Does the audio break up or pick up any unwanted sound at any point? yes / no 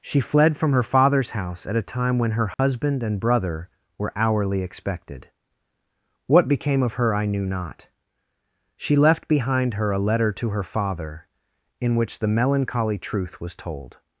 yes